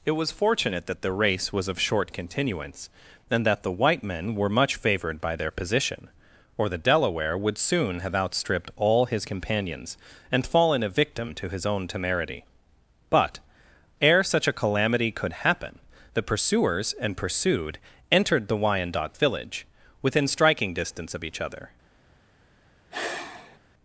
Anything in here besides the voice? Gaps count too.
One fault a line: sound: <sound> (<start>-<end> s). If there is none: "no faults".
sound: sigh (22.9-23.6 s)